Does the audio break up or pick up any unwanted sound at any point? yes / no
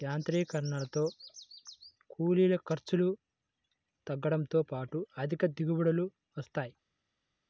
no